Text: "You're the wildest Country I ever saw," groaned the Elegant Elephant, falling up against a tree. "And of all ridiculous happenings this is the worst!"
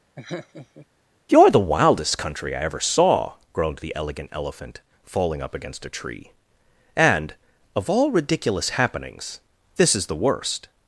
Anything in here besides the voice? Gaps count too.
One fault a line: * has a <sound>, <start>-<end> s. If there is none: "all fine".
* has a laugh, 0.2-0.9 s